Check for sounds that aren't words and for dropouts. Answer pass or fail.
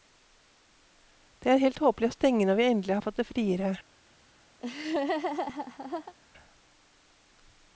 fail